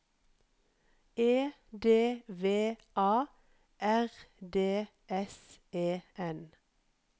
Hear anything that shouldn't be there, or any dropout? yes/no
no